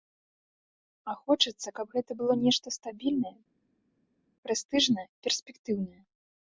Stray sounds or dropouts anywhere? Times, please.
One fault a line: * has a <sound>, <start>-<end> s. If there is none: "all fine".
all fine